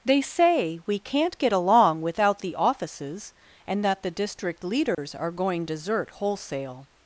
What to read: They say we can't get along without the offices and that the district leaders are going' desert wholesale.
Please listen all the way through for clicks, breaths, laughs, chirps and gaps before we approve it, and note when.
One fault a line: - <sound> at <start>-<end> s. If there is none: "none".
- dropout at 4.9-5.0 s